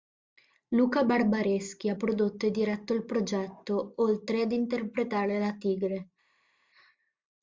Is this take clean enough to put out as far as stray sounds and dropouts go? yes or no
yes